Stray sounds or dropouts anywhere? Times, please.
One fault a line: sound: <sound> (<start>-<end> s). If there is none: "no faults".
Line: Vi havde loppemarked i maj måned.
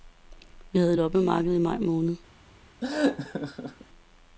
sound: laugh (2.8-3.9 s)